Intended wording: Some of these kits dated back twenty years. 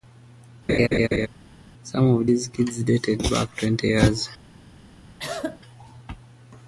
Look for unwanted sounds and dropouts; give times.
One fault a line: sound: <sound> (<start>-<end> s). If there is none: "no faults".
sound: laugh (0.7-1.3 s)
sound: cough (5.2-5.6 s)